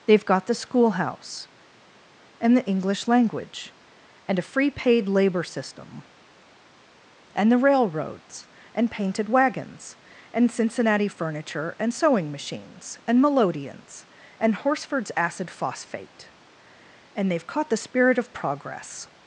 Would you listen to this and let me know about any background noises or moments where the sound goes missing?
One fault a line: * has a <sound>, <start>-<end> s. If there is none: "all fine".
all fine